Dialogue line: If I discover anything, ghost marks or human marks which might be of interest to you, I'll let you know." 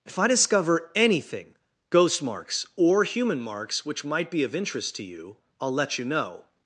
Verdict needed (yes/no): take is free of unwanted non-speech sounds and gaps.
yes